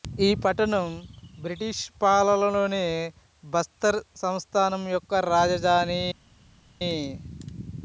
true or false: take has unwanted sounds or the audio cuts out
false